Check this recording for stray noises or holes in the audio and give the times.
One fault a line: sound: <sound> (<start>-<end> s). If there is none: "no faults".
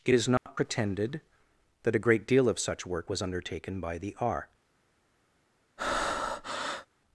sound: dropout (0.4-0.5 s)
sound: breath (5.8-6.9 s)